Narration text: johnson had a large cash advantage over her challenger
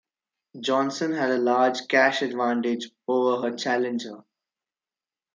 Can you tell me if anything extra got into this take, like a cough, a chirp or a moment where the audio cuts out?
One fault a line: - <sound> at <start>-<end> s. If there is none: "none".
none